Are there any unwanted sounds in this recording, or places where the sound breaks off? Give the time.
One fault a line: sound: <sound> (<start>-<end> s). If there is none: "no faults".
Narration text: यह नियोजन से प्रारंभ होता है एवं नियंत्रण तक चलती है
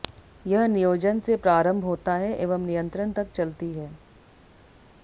no faults